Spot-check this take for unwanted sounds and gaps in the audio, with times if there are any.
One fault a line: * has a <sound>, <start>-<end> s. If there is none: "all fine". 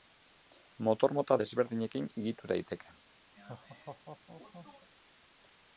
* has a laugh, 3.3-4.9 s